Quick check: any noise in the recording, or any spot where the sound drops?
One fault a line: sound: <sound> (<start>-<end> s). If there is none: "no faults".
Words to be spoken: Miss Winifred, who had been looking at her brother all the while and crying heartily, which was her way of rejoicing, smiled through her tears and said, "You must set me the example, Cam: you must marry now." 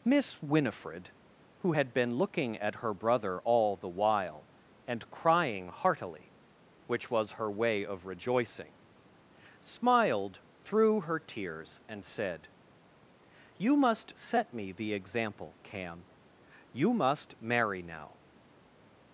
no faults